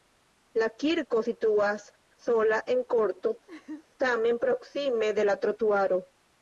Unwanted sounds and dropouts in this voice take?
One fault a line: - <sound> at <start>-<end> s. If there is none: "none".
- laugh at 3.5-3.9 s